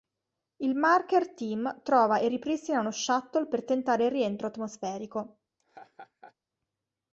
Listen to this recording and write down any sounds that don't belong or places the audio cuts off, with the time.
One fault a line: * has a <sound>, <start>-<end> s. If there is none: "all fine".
* has a laugh, 5.6-6.3 s